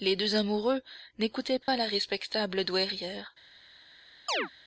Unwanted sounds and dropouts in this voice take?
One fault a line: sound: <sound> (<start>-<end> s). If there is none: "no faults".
sound: dropout (1.6-1.7 s)
sound: chirp (4.3-4.5 s)